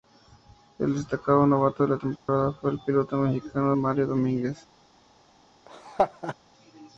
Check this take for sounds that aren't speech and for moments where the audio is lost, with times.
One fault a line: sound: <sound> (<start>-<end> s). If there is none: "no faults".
sound: dropout (2.2-2.3 s)
sound: laugh (5.7-6.4 s)